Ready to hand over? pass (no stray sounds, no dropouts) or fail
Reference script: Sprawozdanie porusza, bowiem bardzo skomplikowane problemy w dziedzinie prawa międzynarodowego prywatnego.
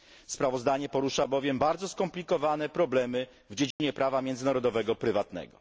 fail